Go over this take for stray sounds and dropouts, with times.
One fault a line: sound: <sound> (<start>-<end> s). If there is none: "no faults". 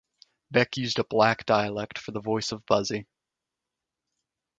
no faults